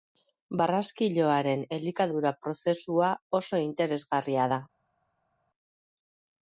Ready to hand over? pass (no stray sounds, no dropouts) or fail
pass